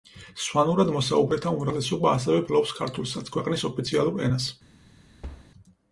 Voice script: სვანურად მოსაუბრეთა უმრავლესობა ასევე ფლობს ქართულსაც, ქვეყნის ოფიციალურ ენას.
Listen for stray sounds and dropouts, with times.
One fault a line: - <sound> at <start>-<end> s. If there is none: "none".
- thud at 5.2-5.5 s